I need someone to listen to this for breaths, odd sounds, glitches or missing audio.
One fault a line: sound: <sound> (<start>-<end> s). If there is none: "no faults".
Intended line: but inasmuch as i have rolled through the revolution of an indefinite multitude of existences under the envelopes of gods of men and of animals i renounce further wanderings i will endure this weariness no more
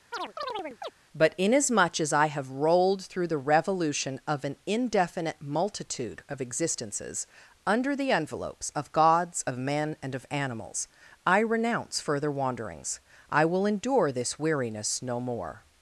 sound: chirp (0.1-0.9 s)